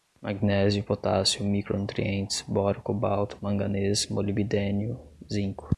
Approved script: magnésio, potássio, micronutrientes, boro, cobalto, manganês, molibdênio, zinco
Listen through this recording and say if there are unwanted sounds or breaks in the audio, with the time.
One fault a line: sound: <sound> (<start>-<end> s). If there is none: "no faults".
no faults